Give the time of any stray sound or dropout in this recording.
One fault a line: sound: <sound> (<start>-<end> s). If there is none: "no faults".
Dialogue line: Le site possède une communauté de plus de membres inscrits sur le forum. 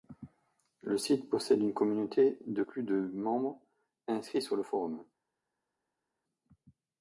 no faults